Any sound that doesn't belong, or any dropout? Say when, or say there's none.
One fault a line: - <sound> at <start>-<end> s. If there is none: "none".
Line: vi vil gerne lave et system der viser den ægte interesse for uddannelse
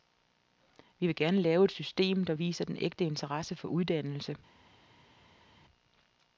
none